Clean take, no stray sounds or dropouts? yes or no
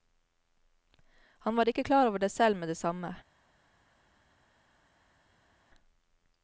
yes